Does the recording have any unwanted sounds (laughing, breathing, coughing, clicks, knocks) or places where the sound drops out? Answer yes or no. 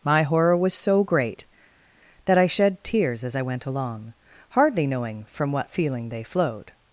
no